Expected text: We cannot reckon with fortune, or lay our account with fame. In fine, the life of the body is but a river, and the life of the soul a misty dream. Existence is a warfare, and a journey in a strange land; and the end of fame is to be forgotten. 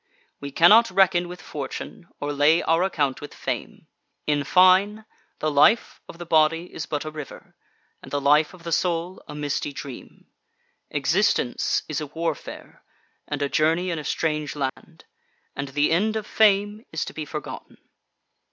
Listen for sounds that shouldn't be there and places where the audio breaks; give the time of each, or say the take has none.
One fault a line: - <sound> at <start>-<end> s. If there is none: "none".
- dropout at 14.7-14.8 s